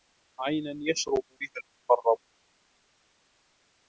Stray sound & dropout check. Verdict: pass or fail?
pass